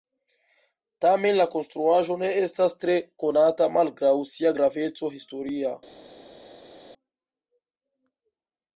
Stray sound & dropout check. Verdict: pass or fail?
pass